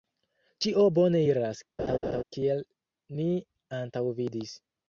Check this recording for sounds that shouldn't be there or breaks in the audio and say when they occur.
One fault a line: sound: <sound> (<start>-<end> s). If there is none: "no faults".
sound: laugh (1.8-2.2 s)